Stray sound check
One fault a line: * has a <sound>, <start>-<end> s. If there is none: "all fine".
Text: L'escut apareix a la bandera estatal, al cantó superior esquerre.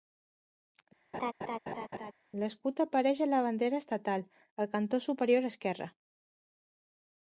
* has a laugh, 1.1-2.1 s